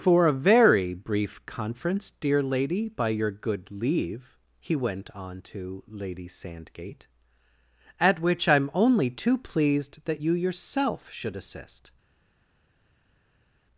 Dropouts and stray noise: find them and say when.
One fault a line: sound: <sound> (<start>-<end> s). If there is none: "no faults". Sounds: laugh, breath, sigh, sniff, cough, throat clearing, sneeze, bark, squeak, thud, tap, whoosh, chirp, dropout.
no faults